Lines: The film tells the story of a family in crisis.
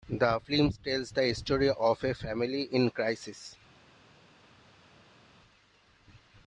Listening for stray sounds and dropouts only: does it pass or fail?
pass